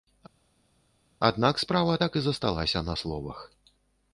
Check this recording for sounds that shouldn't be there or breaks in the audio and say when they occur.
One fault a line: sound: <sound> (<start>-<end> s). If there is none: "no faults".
no faults